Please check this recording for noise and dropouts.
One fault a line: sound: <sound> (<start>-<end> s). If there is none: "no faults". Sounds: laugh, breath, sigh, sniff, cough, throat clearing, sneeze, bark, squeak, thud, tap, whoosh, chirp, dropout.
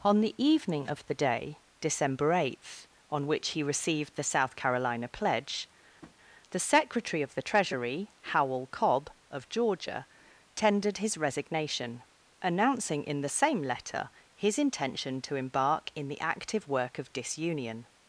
sound: tap (6.0-6.2 s)